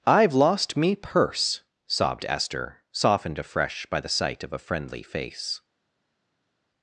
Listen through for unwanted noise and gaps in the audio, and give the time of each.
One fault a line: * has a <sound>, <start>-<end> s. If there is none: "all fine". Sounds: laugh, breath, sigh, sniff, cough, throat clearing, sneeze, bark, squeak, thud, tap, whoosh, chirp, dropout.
all fine